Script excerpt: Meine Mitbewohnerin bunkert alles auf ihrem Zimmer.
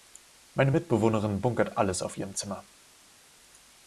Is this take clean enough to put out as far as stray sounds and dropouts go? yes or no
yes